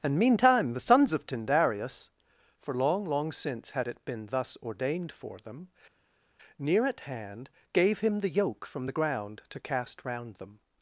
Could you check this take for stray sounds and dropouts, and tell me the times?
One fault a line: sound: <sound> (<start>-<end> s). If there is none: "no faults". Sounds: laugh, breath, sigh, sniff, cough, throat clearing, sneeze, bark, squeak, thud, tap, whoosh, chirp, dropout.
no faults